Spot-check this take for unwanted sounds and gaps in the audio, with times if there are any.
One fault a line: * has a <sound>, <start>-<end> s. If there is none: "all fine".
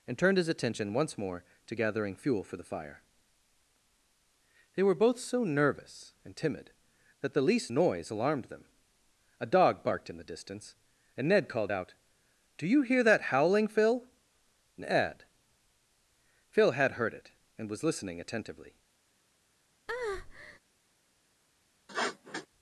* has a breath, 19.9-20.6 s
* has a sniff, 21.9-22.5 s